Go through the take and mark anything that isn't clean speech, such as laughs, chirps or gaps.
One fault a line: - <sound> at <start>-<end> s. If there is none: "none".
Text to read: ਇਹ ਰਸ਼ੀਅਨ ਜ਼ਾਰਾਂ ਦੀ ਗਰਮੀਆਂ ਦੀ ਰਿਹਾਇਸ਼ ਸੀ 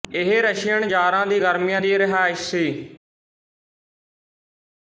none